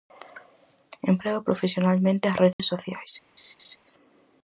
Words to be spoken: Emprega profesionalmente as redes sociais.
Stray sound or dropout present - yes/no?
yes